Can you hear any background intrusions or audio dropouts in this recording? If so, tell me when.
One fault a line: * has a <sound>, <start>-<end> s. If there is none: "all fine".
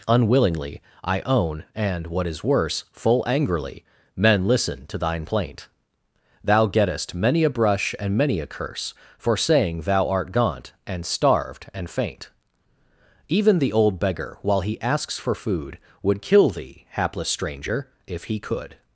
all fine